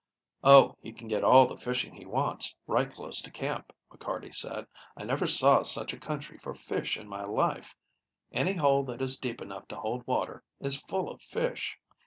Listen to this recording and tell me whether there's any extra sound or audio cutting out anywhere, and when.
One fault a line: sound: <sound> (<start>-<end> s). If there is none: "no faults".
no faults